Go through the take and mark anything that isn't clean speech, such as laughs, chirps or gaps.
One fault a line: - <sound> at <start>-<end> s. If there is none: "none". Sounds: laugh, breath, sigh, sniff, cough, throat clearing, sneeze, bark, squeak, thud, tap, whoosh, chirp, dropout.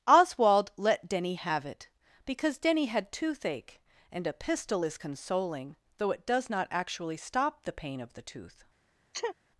- sneeze at 9.1-9.4 s